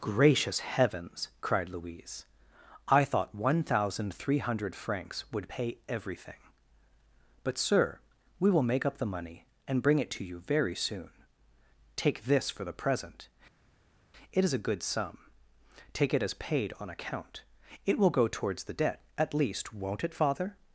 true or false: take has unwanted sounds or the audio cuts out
false